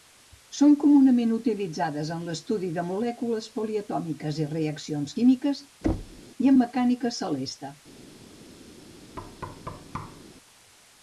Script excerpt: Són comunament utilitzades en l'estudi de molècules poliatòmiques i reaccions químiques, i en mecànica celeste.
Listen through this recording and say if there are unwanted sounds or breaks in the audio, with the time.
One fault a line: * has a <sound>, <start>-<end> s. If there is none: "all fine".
* has a thud, 5.8-6.2 s
* has a thud, 9.2-10.2 s